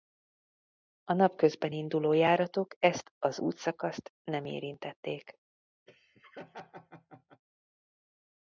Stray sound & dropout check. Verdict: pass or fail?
fail